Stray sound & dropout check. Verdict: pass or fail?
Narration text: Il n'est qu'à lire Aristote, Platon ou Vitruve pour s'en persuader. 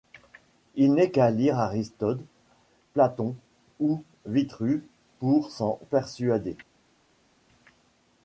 pass